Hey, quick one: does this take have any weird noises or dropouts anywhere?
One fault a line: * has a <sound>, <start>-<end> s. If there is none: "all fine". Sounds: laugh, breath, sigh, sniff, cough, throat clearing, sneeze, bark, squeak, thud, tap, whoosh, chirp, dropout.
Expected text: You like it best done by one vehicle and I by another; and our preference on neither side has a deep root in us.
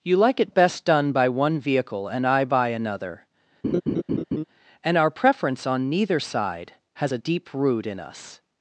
* has a laugh, 3.6-4.4 s